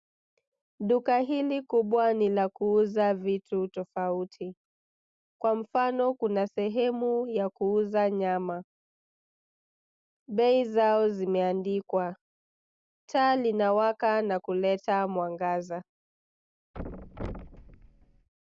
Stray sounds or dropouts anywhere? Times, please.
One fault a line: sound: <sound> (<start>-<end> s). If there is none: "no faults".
sound: thud (16.7-18.3 s)